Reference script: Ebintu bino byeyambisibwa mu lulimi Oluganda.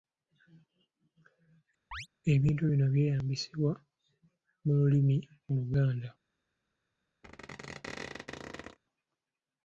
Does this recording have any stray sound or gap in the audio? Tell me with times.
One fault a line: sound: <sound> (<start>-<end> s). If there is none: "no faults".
sound: chirp (1.9-2.1 s)
sound: squeak (7.2-8.8 s)